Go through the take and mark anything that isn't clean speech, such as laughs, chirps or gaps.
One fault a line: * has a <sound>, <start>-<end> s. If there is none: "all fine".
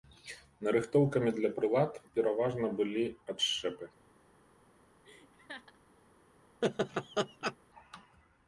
* has a laugh, 5.0-5.8 s
* has a laugh, 6.6-7.6 s